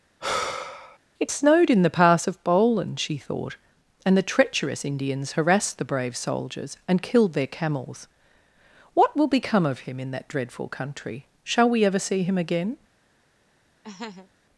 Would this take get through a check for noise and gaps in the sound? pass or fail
fail